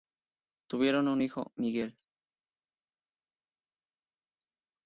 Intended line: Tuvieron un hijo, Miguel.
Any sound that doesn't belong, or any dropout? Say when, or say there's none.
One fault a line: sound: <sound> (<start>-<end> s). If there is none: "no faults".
no faults